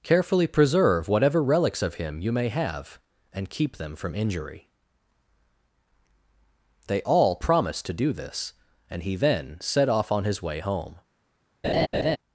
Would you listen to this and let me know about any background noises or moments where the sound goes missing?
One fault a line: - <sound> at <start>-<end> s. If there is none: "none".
- laugh at 11.6-12.2 s